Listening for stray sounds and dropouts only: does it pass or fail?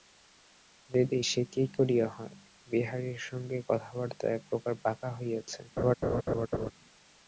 fail